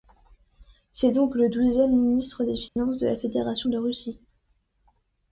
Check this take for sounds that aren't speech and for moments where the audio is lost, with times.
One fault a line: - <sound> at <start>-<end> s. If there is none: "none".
- dropout at 2.7-2.8 s